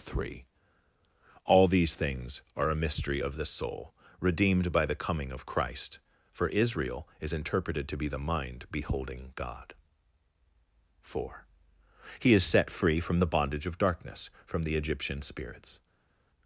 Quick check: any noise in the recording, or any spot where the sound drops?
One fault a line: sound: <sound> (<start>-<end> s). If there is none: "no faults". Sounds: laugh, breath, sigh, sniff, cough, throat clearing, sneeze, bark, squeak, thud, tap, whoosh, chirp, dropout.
no faults